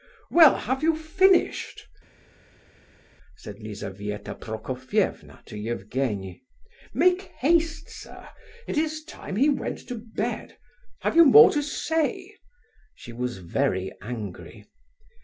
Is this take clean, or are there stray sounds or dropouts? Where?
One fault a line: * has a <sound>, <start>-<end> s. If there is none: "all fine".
all fine